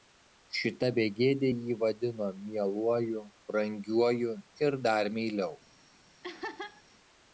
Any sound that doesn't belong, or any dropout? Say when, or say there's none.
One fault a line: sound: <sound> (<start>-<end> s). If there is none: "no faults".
sound: laugh (6.2-6.8 s)